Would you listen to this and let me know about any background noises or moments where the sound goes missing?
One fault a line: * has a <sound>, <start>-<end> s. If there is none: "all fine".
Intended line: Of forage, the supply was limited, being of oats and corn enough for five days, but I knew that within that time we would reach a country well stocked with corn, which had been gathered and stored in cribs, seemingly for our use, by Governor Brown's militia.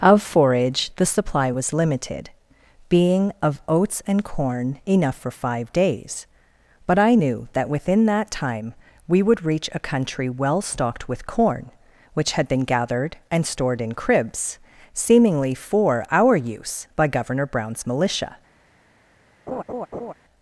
* has a laugh, 19.5-20.1 s